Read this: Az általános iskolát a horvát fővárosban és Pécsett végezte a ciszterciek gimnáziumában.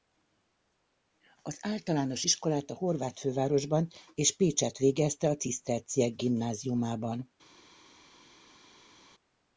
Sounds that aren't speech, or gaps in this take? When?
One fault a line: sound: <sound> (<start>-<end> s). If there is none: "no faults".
no faults